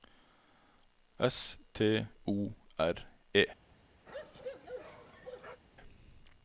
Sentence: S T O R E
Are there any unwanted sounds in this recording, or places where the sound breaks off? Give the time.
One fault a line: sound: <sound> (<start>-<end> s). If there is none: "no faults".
sound: bark (4.1-5.6 s)